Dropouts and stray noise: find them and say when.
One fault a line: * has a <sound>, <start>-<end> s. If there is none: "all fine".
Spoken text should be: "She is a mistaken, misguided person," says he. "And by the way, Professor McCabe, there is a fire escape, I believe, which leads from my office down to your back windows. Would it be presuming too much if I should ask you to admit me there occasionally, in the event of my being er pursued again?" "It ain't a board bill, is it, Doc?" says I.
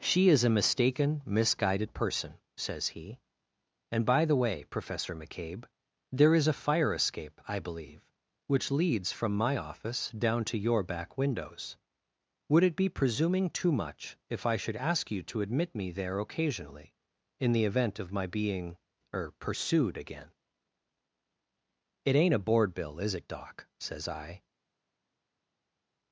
all fine